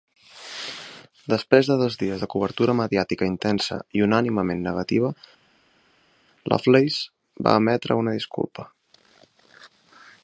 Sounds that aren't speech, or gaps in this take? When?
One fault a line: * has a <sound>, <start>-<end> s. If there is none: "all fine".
all fine